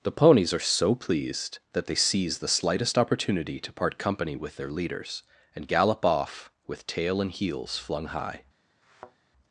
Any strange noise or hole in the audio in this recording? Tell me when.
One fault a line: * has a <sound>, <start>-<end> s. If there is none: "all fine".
* has a thud, 8.8-9.2 s